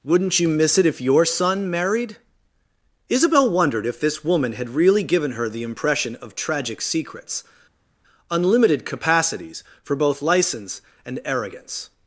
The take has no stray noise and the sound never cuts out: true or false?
true